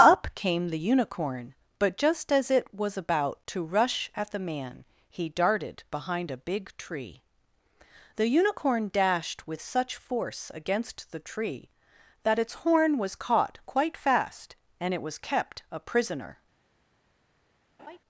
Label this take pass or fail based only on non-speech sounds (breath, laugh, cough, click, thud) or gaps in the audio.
fail